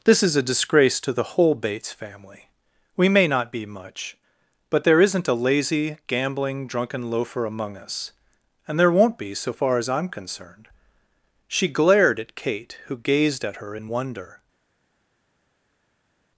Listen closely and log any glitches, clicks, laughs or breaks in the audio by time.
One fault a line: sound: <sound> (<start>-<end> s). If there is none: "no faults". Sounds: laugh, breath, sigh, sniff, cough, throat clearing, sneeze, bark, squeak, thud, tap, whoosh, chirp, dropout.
no faults